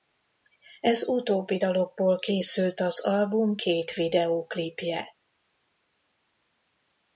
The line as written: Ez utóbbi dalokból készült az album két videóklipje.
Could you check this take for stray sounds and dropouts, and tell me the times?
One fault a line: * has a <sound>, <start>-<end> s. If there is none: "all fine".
all fine